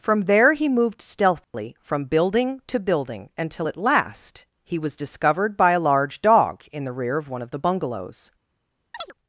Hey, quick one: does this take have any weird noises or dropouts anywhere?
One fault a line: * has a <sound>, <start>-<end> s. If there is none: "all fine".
* has a dropout, 1.4-1.5 s
* has a chirp, 8.9-9.1 s